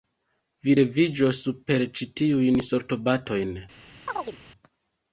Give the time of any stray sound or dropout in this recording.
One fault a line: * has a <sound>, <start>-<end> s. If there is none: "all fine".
* has a chirp, 4.1-4.4 s